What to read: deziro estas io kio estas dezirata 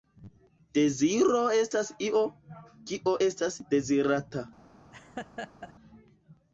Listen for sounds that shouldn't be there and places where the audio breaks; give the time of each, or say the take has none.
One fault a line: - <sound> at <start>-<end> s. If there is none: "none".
- laugh at 4.9-5.7 s